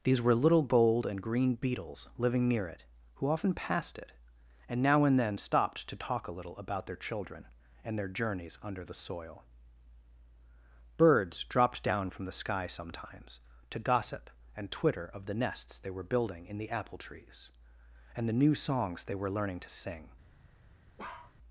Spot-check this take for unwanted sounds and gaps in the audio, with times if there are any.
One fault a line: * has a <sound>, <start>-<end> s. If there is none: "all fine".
* has a bark, 21.0-21.3 s